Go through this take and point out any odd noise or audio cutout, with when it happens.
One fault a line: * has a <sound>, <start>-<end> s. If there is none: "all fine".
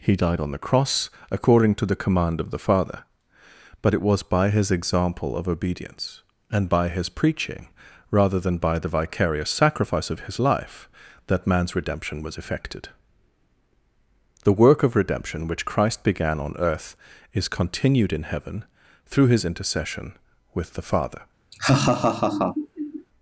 * has a laugh, 21.5-23.1 s